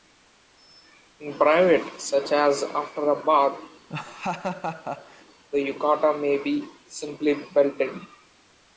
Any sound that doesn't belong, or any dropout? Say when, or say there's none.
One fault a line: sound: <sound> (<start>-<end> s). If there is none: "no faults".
sound: laugh (3.9-5.2 s)